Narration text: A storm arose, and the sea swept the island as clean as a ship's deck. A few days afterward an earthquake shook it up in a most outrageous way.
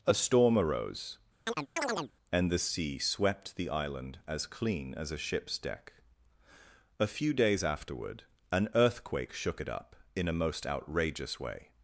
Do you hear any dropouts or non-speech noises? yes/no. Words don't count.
yes